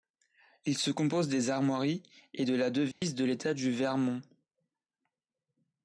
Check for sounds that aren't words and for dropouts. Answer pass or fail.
fail